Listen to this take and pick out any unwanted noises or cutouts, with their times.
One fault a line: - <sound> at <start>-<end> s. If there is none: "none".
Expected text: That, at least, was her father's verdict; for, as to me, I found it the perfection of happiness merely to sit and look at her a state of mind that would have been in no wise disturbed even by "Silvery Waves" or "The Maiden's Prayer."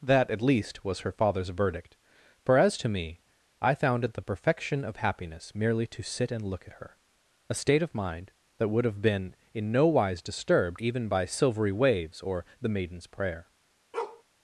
- bark at 13.9-14.2 s